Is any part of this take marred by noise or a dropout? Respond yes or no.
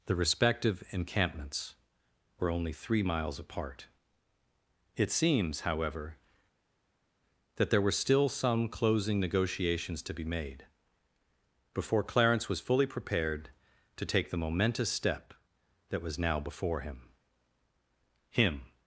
no